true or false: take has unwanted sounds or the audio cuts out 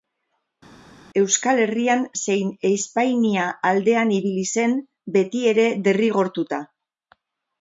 false